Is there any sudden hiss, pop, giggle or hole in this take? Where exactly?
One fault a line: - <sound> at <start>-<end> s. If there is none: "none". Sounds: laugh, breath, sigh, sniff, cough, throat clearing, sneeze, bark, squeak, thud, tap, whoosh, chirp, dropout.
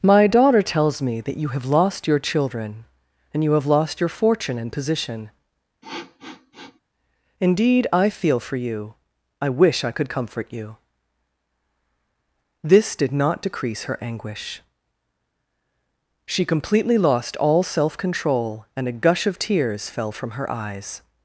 - sniff at 5.8-6.8 s